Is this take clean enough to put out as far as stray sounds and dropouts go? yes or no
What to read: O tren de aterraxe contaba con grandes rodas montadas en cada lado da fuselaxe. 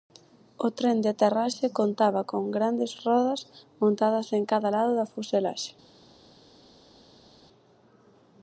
yes